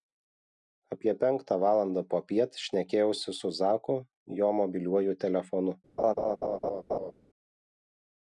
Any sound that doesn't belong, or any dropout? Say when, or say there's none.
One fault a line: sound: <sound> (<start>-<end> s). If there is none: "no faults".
sound: laugh (6.0-7.1 s)